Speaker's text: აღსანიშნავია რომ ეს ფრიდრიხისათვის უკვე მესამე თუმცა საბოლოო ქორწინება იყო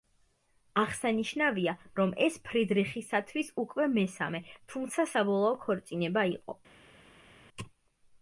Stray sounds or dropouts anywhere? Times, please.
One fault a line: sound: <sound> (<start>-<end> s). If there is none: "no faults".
no faults